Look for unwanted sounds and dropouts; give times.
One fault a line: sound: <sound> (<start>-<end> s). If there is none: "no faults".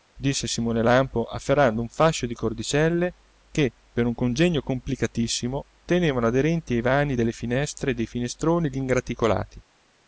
no faults